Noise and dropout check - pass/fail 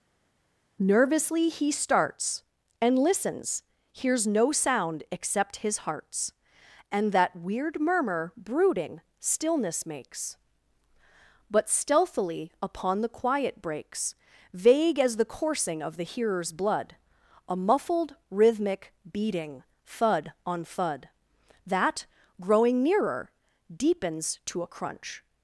pass